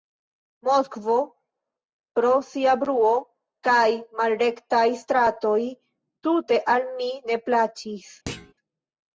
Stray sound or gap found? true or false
true